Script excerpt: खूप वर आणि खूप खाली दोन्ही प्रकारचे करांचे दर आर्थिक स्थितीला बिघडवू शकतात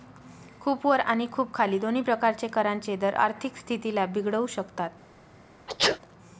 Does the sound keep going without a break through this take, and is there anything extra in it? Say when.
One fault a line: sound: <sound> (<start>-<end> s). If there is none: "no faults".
sound: sneeze (5.7-6.0 s)